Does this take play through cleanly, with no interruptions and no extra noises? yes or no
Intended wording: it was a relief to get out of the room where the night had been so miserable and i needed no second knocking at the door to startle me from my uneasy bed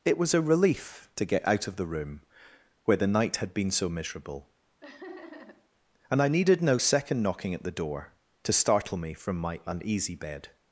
no